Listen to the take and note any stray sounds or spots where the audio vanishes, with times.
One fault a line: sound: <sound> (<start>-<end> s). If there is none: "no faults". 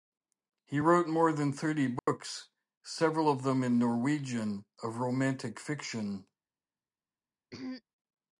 sound: dropout (2.0-2.1 s)
sound: throat clearing (7.5-7.8 s)